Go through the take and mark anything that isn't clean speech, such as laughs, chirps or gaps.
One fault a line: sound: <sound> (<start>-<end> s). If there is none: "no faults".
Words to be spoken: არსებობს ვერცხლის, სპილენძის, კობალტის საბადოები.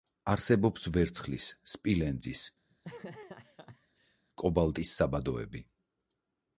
sound: laugh (2.7-4.2 s)